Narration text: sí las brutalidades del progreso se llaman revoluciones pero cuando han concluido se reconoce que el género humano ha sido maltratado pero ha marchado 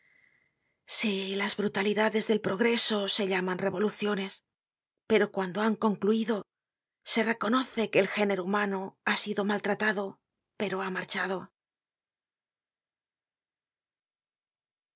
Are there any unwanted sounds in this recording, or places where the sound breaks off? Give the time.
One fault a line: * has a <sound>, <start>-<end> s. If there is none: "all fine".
all fine